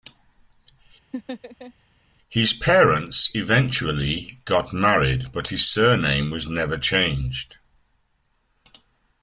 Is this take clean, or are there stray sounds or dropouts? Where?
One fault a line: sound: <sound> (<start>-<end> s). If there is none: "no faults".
sound: laugh (1.1-1.7 s)